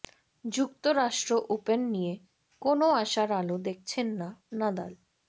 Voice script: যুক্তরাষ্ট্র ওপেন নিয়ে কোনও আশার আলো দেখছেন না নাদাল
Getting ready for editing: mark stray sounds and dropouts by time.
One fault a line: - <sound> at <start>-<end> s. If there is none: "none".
none